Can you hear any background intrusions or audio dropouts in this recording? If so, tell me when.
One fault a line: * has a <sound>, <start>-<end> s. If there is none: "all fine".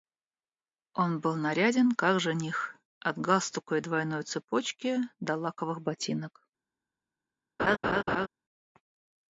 * has a laugh, 7.6-8.3 s